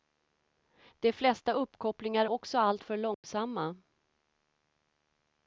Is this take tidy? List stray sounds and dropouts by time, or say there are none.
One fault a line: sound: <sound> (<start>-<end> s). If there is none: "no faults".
sound: dropout (3.1-3.2 s)